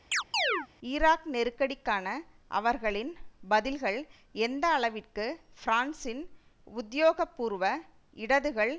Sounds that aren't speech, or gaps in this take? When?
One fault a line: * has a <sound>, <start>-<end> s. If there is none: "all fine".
* has a chirp, 0.1-0.7 s